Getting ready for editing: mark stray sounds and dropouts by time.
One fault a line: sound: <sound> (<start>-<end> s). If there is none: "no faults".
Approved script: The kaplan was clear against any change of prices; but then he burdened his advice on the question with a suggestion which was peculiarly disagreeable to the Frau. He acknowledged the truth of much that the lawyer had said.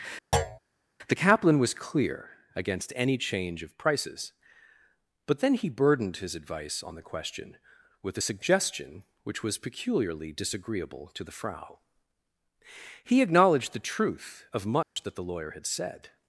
sound: thud (0.3-0.6 s)
sound: dropout (14.8-15.0 s)